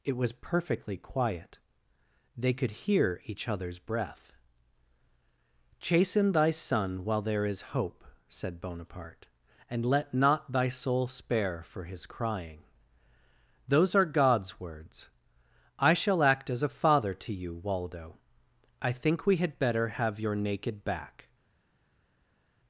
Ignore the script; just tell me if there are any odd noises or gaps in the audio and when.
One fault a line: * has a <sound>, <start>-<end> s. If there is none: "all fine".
all fine